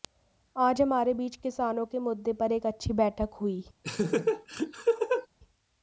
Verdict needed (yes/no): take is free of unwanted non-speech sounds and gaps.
no